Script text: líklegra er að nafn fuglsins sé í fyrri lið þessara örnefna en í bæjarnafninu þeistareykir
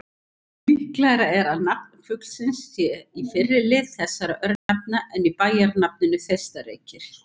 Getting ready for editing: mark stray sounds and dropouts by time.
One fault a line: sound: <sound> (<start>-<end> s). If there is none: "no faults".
sound: dropout (4.6-4.7 s)